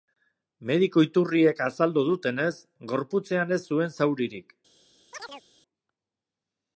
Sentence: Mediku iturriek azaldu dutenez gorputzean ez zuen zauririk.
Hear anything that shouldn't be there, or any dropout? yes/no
yes